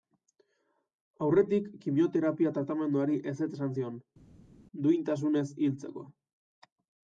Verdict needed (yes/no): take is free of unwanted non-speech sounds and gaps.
yes